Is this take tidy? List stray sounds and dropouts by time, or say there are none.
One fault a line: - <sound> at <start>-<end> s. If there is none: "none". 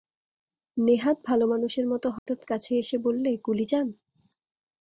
- dropout at 2.2-2.3 s